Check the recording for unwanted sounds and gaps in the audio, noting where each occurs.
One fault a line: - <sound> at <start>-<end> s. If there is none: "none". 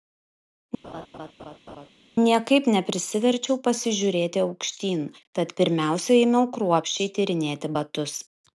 - laugh at 0.8-1.9 s